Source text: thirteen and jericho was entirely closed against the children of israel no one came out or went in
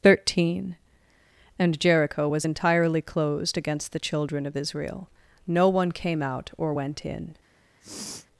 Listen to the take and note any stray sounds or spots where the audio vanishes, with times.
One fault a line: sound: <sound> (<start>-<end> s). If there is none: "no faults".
sound: sniff (7.8-8.3 s)